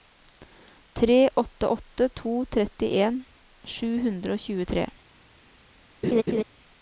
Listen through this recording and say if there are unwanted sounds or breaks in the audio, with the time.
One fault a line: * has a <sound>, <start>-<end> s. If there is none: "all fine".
* has a laugh, 6.0-6.4 s